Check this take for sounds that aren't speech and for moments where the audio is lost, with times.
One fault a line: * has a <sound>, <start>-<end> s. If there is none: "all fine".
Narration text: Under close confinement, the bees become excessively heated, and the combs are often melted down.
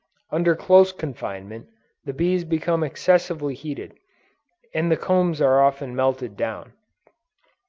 all fine